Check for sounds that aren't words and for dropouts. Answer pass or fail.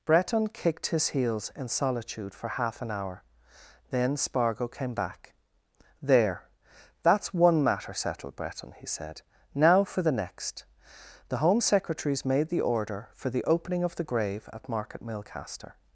pass